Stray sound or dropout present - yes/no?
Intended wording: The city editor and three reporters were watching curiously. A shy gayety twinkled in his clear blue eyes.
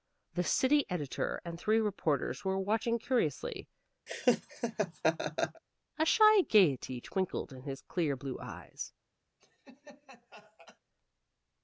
yes